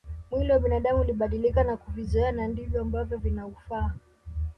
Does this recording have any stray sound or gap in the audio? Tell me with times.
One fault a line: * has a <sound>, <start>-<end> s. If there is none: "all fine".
all fine